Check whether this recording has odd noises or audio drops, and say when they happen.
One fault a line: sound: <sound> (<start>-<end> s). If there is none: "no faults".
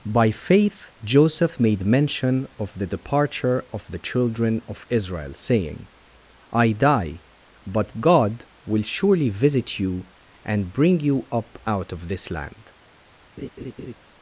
sound: laugh (13.4-14.0 s)